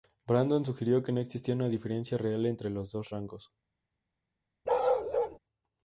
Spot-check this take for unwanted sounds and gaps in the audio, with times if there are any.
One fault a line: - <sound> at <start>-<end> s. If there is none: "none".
- bark at 4.6-5.4 s